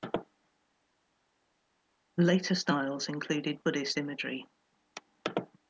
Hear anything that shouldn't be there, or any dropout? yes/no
no